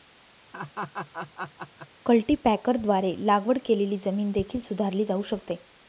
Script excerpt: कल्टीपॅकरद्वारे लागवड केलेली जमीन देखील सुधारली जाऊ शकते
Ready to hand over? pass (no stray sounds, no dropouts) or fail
fail